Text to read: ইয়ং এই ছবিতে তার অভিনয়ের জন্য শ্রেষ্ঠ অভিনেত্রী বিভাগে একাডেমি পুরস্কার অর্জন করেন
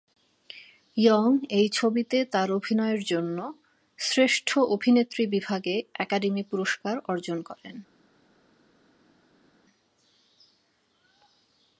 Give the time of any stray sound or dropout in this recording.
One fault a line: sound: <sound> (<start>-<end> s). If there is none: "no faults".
no faults